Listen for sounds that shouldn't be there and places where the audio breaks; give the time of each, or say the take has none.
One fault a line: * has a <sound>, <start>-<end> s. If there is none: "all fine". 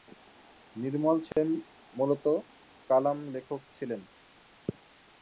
* has a dropout, 1.3-1.4 s